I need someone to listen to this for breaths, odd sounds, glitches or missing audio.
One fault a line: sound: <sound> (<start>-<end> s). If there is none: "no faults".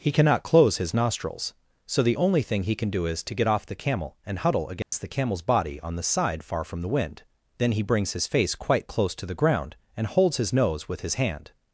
sound: dropout (4.8-4.9 s)